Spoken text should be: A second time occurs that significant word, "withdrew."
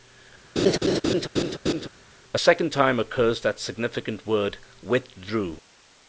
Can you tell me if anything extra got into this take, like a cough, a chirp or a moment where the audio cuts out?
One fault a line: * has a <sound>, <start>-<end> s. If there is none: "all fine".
* has a laugh, 0.6-1.9 s